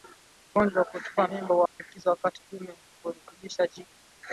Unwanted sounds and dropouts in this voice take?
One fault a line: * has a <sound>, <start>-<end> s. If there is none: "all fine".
* has a dropout, 1.7-1.8 s
* has a dropout, 2.8-3.0 s